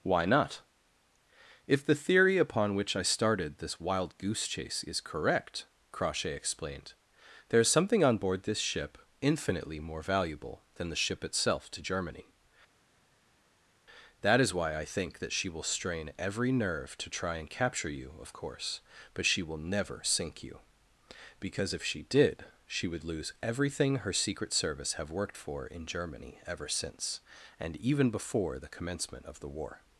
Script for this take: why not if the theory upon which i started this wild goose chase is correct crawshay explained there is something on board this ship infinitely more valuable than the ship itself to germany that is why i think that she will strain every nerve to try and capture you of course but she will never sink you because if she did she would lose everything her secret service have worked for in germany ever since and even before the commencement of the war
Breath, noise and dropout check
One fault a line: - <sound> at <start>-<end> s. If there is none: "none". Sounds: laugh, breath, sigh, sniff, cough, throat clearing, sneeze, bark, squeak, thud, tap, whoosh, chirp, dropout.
none